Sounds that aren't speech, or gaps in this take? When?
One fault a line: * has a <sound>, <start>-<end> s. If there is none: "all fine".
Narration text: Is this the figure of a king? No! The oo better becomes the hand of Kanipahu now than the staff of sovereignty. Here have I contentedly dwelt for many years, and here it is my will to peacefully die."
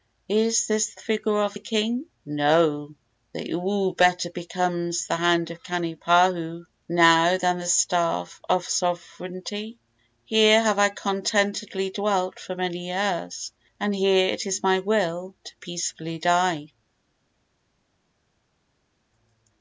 all fine